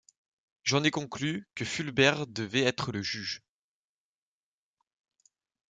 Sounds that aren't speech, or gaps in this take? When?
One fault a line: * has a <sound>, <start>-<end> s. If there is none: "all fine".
all fine